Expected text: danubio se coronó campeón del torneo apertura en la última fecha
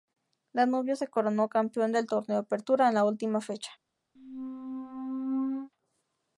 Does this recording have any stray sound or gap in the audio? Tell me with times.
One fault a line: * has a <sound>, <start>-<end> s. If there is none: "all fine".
* has a squeak, 4.2-5.7 s